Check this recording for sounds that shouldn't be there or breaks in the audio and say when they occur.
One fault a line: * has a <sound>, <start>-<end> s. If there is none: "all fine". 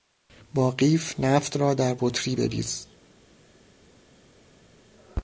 all fine